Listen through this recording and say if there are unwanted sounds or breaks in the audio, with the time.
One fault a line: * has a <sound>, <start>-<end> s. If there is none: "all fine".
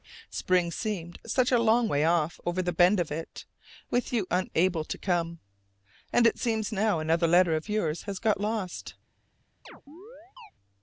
* has a chirp, 9.6-10.5 s